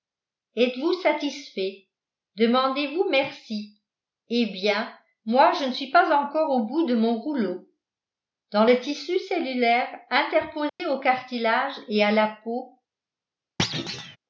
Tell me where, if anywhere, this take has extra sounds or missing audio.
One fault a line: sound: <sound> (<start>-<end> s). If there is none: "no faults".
sound: dropout (10.7-10.8 s)
sound: thud (13.6-14.2 s)